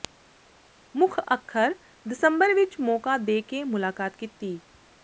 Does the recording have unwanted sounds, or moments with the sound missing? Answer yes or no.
no